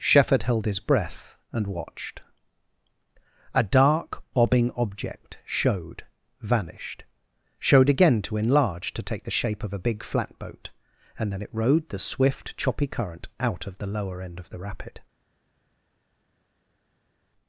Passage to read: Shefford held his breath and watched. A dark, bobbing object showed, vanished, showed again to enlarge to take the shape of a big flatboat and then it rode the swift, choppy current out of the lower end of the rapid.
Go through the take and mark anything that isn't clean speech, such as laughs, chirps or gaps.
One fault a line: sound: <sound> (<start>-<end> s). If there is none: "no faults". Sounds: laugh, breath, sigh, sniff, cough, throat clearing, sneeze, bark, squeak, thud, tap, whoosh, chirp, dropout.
no faults